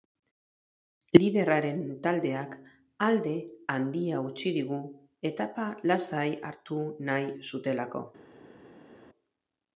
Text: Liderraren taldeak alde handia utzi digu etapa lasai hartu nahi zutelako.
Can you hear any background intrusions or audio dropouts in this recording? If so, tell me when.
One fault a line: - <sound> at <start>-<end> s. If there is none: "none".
none